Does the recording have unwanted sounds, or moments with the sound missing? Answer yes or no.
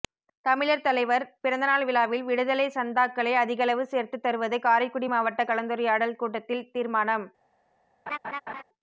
yes